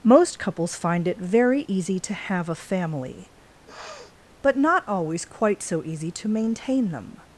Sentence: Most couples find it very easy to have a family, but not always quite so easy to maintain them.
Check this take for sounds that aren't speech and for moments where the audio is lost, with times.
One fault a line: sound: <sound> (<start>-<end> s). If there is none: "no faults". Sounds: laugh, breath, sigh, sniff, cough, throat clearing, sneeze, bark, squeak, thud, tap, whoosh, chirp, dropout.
sound: sniff (3.7-4.1 s)